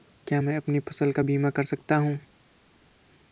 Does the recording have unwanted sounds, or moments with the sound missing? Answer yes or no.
no